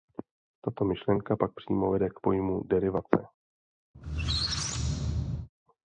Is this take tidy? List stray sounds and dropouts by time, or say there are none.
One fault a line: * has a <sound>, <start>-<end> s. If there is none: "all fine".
* has a squeak, 3.9-5.5 s